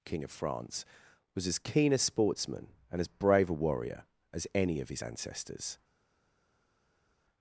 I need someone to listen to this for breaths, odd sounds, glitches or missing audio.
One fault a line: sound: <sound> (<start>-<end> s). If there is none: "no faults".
no faults